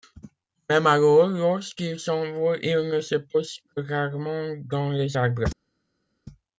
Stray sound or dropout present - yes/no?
no